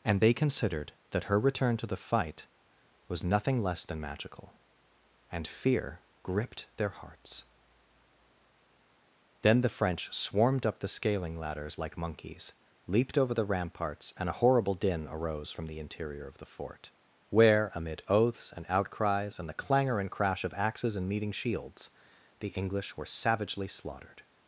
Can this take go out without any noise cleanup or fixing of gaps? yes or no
yes